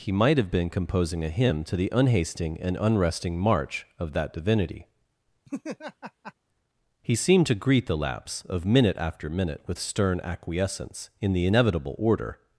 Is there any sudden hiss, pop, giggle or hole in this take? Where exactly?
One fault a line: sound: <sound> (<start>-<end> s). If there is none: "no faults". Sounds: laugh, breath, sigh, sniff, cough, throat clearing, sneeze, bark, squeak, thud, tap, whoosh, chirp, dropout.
sound: laugh (5.5-6.3 s)